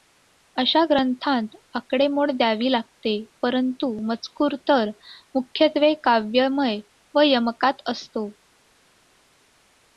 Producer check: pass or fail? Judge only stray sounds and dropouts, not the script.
pass